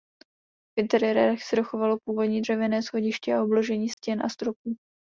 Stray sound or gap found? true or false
true